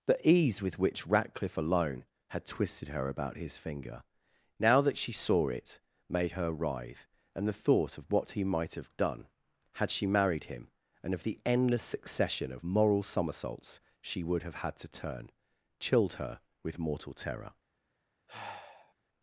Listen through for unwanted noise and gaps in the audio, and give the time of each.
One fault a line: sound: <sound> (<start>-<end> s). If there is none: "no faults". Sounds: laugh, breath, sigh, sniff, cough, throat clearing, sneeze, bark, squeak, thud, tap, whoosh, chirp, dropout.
sound: sigh (18.3-18.9 s)